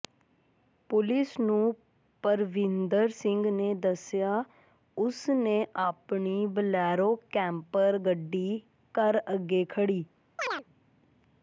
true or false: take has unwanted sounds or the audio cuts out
true